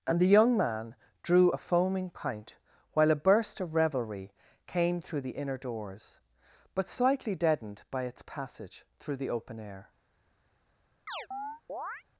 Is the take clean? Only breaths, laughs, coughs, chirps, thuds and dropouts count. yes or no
no